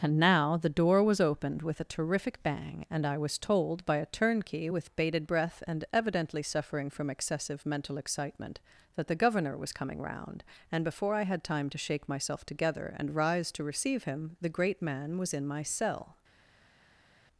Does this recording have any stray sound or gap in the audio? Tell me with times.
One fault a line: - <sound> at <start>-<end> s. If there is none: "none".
none